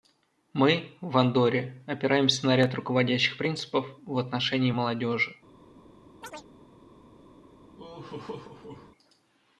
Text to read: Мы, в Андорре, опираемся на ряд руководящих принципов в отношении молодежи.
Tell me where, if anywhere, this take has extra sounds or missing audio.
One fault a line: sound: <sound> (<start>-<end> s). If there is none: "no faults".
sound: chirp (6.2-6.5 s)
sound: laugh (7.8-8.9 s)